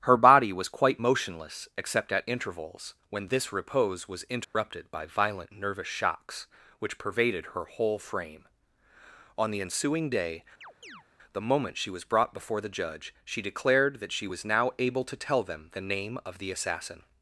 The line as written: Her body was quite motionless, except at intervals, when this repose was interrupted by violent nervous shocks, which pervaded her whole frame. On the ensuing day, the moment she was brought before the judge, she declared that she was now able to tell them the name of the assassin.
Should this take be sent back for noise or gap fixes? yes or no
yes